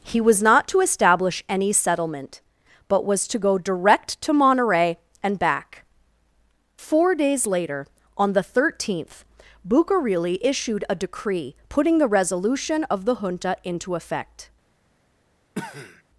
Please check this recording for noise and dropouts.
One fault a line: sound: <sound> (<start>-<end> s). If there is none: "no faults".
sound: cough (15.5-16.0 s)